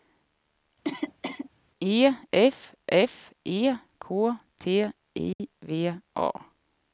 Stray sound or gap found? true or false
true